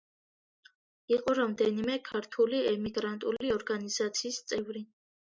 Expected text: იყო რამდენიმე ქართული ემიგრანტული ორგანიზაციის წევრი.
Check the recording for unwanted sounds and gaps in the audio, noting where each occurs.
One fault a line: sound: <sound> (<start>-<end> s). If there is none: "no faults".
no faults